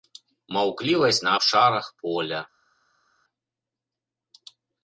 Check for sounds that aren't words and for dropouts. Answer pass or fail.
pass